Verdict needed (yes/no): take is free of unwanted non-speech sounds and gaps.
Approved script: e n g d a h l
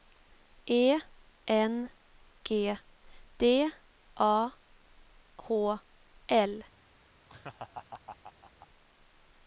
no